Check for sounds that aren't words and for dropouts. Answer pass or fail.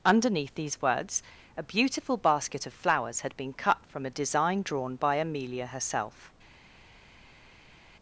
pass